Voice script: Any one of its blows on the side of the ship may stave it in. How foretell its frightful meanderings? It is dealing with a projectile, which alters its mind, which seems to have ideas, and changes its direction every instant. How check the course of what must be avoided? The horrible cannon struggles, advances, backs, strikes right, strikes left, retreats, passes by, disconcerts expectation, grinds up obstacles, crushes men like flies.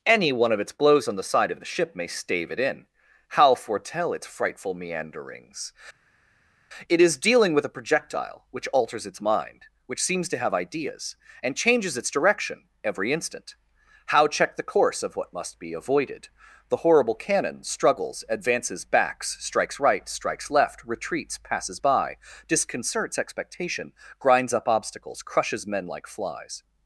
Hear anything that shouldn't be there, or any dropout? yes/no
no